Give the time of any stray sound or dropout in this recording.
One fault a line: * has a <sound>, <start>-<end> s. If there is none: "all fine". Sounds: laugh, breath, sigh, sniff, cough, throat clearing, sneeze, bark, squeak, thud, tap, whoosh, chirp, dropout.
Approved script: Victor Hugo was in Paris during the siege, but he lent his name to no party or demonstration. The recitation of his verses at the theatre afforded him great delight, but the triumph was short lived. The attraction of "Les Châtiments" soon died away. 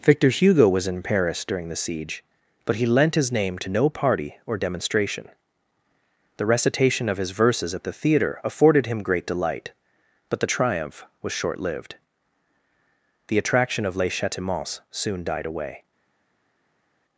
all fine